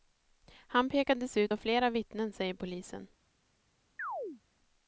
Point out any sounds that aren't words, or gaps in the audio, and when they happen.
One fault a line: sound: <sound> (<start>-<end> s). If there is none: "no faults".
sound: chirp (4.0-4.4 s)